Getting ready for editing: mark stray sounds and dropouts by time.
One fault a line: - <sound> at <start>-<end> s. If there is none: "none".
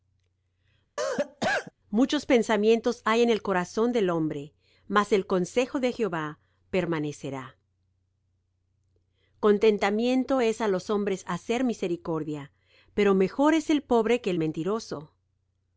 - cough at 1.0-1.7 s